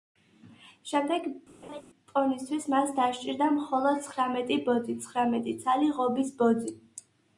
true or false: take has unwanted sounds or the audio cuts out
true